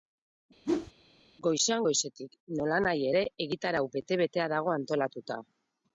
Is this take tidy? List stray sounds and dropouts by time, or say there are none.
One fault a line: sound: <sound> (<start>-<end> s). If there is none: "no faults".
sound: whoosh (0.6-0.9 s)